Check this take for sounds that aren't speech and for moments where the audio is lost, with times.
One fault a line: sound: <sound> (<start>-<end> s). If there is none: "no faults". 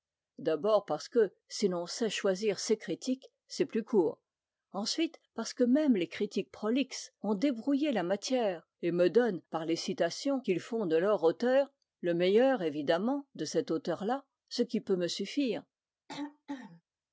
sound: throat clearing (16.1-16.8 s)